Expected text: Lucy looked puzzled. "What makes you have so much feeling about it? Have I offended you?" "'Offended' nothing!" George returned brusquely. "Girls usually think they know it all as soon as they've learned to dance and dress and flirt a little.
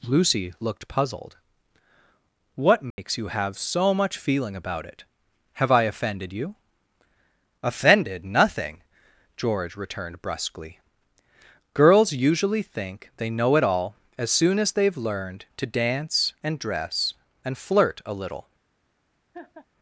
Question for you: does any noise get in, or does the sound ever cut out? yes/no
yes